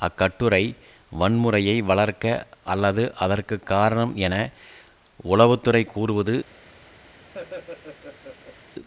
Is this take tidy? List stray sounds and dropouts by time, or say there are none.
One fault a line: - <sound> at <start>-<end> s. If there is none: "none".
- laugh at 7.3-8.6 s